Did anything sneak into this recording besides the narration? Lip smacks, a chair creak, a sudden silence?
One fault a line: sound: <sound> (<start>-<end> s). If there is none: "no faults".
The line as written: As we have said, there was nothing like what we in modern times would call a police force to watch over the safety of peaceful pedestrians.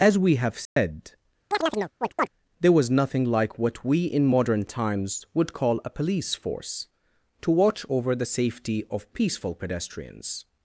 sound: dropout (0.7-0.8 s)
sound: chirp (1.5-2.3 s)